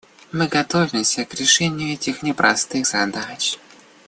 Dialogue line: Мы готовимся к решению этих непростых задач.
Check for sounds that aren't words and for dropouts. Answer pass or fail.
pass